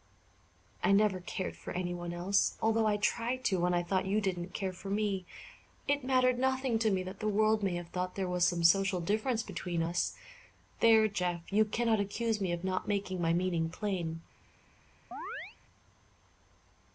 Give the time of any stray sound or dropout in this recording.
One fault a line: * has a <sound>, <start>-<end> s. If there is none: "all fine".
* has a chirp, 15.1-15.6 s